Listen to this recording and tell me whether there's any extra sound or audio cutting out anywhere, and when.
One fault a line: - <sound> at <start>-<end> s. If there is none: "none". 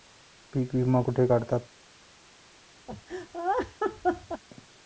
- laugh at 2.9-4.4 s